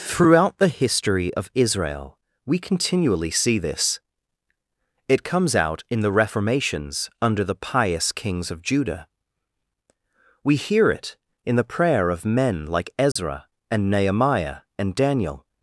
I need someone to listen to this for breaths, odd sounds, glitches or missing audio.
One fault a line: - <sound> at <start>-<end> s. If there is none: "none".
- dropout at 13.1-13.2 s